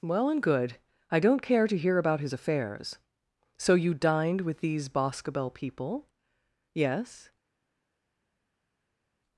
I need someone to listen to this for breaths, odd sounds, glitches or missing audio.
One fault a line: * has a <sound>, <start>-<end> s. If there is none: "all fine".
all fine